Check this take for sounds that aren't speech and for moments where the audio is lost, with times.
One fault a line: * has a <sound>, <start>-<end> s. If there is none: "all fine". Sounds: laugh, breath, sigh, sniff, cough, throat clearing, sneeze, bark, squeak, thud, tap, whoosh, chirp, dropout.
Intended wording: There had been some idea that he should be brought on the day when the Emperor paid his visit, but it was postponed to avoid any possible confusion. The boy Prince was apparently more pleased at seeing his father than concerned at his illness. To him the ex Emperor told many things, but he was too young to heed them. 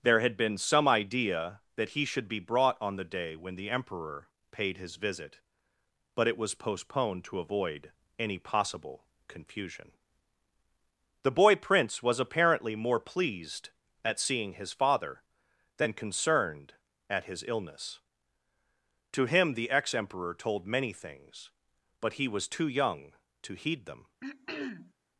* has a throat clearing, 24.2-24.9 s